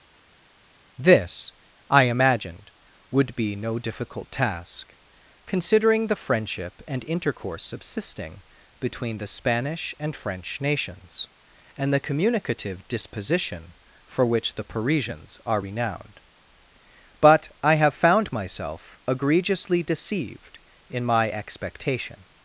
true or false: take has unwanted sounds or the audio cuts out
false